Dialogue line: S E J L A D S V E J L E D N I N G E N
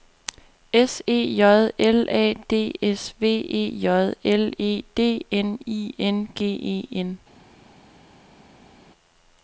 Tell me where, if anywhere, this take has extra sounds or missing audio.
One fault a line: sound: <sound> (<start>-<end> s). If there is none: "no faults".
no faults